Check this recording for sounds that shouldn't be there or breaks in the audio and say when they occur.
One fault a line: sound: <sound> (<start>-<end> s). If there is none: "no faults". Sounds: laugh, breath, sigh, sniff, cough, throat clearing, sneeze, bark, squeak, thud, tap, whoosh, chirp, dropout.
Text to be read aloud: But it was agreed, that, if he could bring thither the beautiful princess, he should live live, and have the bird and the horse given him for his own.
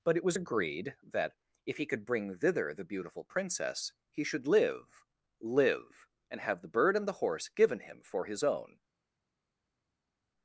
no faults